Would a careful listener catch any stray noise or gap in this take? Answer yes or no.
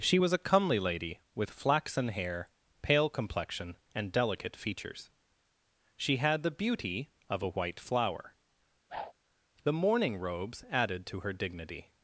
yes